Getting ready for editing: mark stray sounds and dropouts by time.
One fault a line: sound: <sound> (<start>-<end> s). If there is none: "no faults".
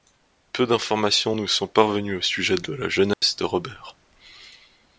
sound: dropout (3.1-3.2 s)